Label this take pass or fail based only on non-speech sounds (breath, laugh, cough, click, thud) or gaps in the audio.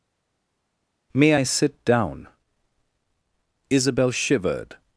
pass